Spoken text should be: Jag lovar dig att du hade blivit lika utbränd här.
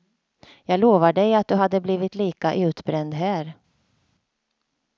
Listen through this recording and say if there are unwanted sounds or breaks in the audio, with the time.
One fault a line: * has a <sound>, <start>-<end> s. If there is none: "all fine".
all fine